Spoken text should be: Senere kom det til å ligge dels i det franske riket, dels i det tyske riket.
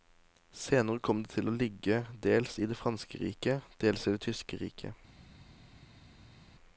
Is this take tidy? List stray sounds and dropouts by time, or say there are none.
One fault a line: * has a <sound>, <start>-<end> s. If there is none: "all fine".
all fine